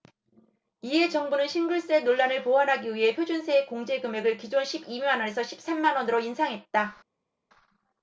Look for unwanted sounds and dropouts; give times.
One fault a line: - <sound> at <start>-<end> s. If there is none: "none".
none